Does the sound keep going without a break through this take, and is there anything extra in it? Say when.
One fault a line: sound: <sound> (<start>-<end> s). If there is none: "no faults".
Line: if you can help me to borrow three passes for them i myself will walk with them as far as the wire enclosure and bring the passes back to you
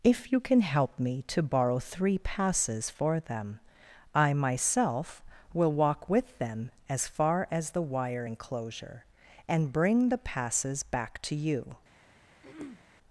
sound: throat clearing (12.4-12.8 s)